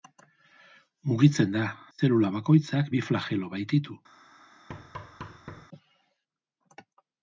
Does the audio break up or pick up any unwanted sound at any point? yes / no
yes